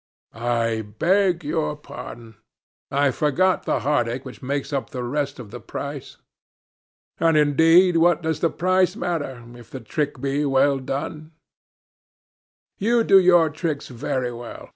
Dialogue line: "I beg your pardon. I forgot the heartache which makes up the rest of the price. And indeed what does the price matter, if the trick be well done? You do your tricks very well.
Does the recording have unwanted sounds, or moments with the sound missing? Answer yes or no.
no